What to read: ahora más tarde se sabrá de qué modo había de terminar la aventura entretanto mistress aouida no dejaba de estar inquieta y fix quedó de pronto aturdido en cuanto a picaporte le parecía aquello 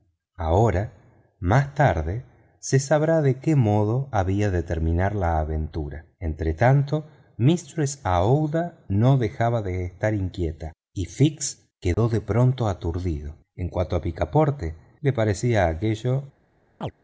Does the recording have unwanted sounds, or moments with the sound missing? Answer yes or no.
yes